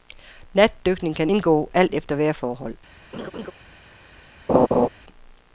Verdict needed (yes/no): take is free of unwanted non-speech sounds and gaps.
no